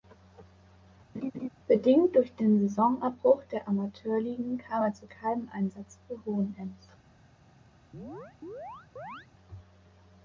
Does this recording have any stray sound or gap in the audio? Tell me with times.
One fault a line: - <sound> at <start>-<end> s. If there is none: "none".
- laugh at 1.1-1.5 s
- chirp at 7.9-9.3 s